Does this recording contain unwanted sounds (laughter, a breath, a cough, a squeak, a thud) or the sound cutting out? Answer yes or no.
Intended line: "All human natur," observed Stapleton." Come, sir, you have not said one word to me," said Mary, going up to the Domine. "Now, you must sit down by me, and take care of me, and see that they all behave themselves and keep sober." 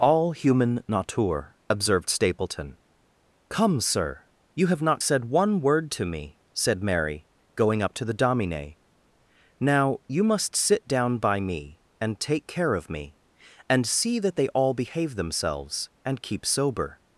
no